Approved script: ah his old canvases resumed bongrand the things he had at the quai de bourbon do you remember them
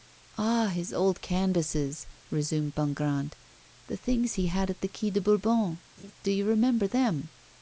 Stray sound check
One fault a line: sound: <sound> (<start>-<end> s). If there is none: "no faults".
sound: laugh (6.0-6.1 s)